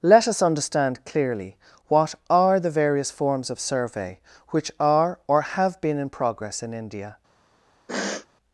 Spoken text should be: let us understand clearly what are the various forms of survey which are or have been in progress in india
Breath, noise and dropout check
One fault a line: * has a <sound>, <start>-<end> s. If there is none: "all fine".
* has a sniff, 7.9-8.3 s